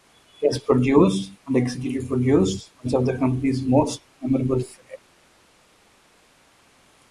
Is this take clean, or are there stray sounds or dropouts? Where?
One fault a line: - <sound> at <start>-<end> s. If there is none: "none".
none